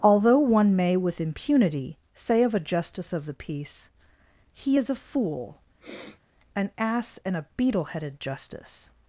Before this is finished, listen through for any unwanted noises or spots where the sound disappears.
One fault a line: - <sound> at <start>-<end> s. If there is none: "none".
- sniff at 5.8-6.2 s